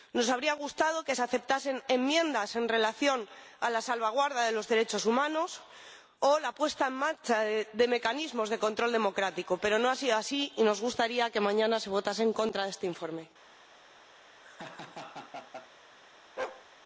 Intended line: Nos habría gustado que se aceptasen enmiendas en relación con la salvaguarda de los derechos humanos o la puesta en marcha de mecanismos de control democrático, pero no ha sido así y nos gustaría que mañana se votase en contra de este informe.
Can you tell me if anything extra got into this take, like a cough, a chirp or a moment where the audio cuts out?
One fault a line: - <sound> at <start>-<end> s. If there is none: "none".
- laugh at 14.4-15.7 s
- bark at 16.4-16.7 s